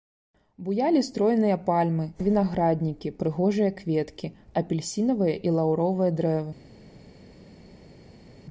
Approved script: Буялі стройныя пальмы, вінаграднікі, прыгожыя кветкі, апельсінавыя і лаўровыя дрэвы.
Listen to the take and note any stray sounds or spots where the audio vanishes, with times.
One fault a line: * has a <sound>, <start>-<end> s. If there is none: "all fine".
all fine